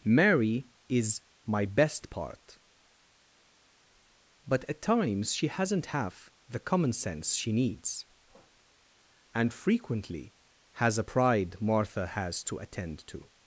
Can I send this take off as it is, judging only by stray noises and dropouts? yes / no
yes